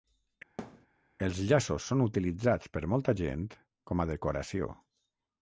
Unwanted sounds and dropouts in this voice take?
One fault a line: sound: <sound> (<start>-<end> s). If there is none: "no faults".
sound: thud (0.6-0.9 s)